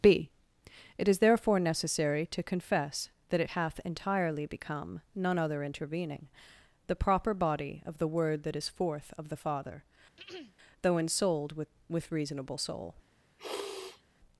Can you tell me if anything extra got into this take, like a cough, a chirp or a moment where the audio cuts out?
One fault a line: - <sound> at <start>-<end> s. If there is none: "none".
- throat clearing at 10.2-10.6 s
- sniff at 13.4-14.0 s